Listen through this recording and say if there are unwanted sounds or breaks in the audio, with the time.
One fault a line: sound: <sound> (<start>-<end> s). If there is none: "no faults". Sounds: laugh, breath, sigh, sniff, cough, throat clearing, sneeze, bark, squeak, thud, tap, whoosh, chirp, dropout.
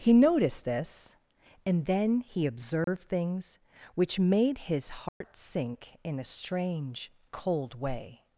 sound: dropout (2.8-2.9 s)
sound: dropout (5.1-5.2 s)